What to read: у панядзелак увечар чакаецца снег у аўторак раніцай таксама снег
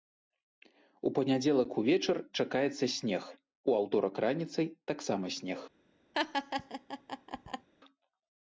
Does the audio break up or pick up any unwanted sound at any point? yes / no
yes